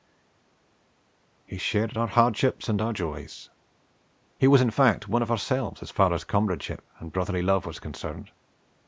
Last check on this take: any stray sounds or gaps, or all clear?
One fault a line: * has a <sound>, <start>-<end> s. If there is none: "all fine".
all fine